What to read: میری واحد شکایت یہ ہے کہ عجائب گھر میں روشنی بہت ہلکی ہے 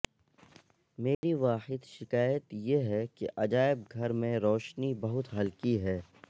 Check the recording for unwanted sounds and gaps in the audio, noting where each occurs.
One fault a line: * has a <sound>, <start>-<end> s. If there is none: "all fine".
* has a dropout, 1.1-1.2 s